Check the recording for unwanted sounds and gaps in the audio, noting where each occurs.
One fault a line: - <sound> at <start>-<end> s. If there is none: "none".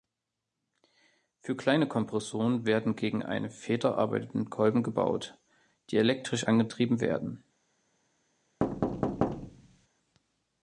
- thud at 8.6-9.9 s